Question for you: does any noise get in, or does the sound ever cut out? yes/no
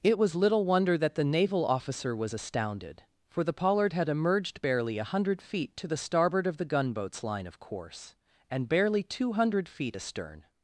no